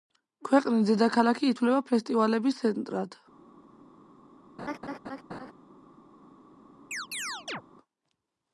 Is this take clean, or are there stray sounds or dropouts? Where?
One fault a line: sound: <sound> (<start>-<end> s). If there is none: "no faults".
sound: laugh (4.6-5.5 s)
sound: chirp (6.9-7.6 s)